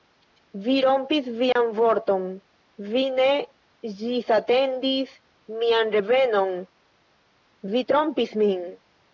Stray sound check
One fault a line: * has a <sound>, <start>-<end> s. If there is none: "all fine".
* has a dropout, 1.5-1.6 s